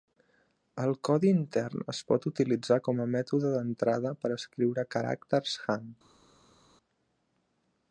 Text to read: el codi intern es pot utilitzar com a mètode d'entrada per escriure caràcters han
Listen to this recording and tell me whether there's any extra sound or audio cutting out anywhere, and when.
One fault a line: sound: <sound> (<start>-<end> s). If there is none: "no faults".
no faults